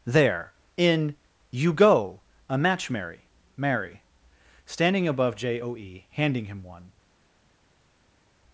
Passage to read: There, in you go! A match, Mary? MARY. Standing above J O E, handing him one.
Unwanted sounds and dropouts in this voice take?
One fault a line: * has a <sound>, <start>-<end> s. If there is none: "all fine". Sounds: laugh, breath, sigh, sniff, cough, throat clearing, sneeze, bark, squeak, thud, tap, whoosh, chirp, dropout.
all fine